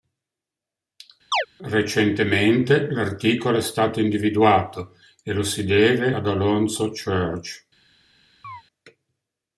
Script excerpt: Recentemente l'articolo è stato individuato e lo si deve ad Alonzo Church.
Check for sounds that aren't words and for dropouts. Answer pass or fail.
fail